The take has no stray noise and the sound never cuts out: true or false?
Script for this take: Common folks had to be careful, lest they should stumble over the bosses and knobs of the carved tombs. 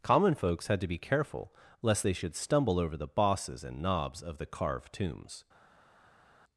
true